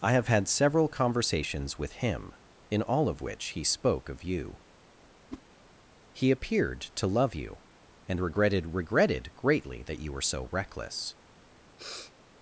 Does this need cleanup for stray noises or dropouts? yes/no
yes